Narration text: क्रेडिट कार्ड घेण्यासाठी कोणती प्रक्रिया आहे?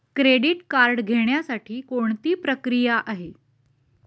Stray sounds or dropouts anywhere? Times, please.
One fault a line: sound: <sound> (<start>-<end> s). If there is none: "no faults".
no faults